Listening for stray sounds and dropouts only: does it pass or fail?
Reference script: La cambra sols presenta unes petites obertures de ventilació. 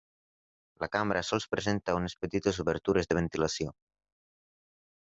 pass